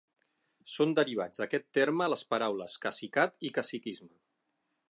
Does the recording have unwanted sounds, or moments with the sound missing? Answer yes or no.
no